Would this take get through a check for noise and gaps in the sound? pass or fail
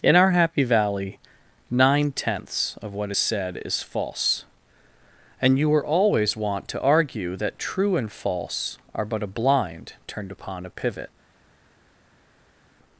pass